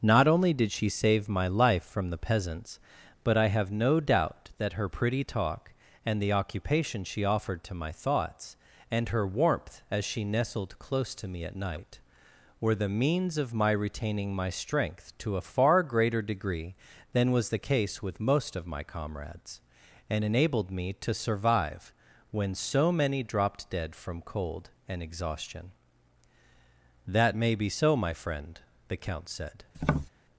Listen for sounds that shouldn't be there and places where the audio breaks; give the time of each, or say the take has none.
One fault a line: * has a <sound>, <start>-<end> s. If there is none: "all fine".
* has a tap, 29.7-30.1 s